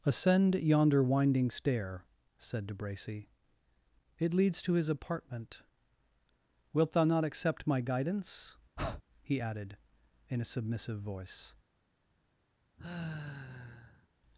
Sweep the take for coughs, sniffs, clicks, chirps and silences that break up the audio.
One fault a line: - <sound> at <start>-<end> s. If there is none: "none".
- breath at 8.8-9.0 s
- sigh at 12.8-14.1 s